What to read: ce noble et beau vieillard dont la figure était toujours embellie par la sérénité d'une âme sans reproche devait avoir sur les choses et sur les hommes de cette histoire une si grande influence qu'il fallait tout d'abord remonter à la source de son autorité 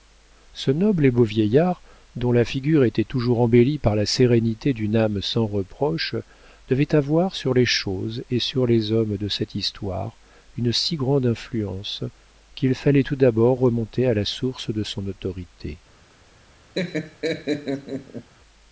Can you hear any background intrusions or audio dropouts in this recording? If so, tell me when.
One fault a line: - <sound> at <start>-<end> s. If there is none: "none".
- laugh at 16.7-18.3 s